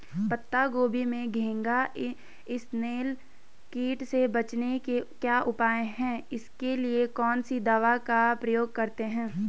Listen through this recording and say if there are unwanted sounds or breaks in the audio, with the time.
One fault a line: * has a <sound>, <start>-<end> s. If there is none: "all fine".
all fine